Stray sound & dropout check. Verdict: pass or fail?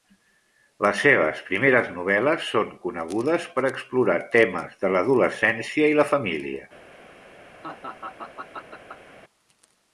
fail